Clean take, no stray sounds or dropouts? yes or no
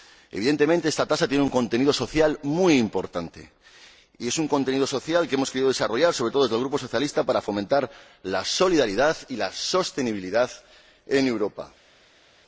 yes